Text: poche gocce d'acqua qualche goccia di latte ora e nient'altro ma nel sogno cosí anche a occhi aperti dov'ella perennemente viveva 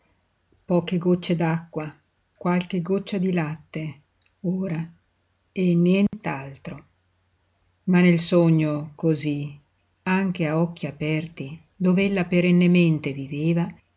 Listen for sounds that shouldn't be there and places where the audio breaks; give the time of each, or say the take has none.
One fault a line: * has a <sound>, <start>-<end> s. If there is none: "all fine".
* has a dropout, 6.1-6.1 s